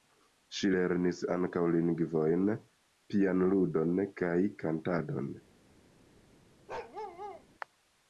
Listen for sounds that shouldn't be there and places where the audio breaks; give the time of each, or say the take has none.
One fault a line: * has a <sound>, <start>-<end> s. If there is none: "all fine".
* has a bark, 6.7-7.4 s